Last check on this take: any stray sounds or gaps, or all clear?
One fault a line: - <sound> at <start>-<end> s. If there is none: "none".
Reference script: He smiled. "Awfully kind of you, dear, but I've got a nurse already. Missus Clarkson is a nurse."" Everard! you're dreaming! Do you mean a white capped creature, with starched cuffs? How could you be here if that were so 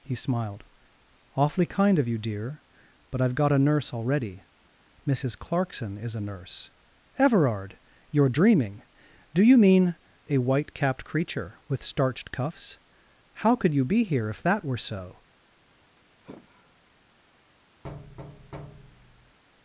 - sigh at 16.2-16.8 s
- thud at 17.8-19.4 s